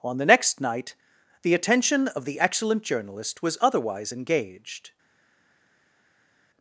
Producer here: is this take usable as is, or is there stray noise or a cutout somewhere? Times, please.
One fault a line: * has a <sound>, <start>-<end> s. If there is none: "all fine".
all fine